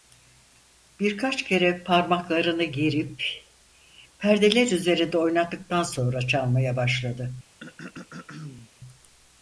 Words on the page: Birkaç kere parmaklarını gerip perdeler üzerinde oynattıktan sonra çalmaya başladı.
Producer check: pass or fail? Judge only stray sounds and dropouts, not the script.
fail